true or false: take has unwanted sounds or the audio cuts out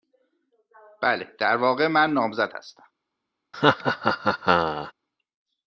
true